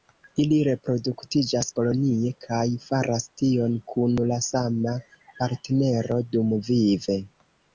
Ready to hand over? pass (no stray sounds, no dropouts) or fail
pass